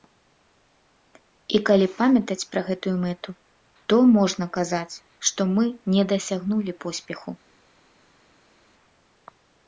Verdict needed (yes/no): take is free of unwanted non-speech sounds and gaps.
yes